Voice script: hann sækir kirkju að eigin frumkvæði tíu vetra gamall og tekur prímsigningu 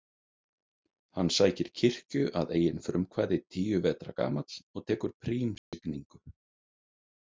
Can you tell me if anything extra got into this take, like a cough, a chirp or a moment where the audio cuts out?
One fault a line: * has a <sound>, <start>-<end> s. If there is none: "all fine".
* has a dropout, 5.6-5.7 s